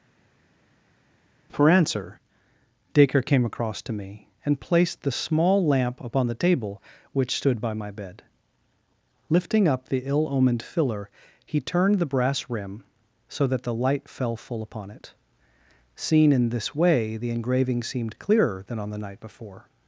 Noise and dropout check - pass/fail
pass